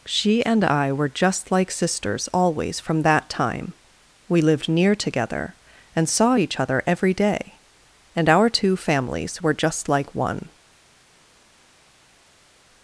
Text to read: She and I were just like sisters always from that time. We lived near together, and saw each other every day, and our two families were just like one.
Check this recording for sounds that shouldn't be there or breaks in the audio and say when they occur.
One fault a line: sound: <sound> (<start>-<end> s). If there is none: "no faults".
no faults